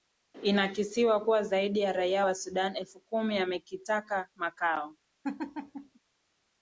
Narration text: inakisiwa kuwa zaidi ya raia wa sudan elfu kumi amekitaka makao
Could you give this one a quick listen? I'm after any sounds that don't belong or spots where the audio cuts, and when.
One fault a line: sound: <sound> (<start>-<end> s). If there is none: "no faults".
sound: laugh (5.2-6.0 s)